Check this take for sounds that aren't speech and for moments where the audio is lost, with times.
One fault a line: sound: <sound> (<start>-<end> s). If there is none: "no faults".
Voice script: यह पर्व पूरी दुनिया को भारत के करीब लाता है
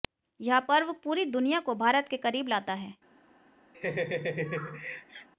sound: laugh (3.7-5.3 s)